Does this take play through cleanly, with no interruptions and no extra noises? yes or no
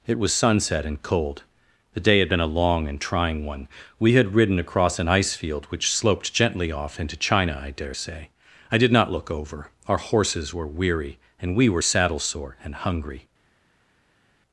yes